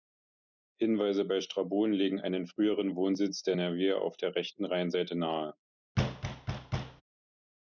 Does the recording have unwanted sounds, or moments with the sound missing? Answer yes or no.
yes